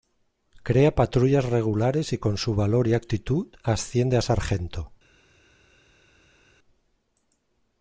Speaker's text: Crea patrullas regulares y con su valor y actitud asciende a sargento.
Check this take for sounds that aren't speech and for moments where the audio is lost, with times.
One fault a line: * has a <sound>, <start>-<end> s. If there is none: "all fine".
all fine